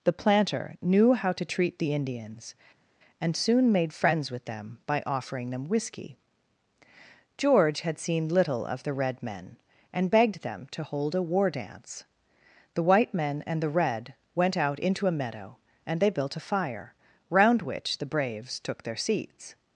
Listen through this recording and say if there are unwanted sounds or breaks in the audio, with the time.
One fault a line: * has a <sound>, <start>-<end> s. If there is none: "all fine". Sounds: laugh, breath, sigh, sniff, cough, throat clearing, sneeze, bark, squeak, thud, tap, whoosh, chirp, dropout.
all fine